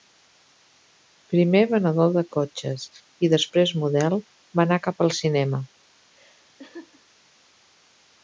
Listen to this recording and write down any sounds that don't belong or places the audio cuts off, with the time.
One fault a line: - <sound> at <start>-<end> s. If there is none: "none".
- laugh at 6.1-7.1 s